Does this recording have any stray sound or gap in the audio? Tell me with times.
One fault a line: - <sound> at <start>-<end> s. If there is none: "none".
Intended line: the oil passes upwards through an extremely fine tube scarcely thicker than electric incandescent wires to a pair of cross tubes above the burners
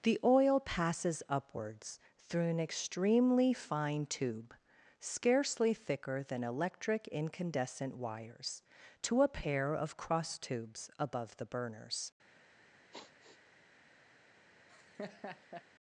- sigh at 12.9-13.4 s
- laugh at 14.7-15.6 s